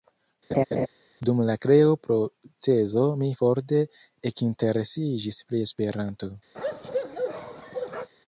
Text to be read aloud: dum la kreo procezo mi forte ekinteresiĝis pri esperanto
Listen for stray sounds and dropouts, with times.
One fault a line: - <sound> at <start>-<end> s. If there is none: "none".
- laugh at 0.5-0.9 s
- bark at 6.5-8.1 s